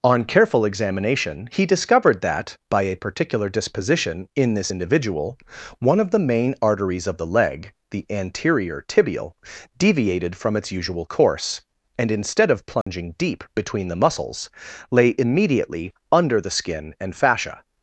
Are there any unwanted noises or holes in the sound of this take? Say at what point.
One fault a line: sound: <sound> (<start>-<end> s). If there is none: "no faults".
sound: dropout (12.8-12.9 s)